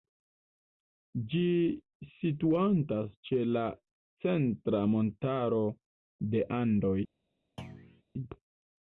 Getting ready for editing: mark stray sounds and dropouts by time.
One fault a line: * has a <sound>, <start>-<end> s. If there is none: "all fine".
* has a thud, 7.6-8.0 s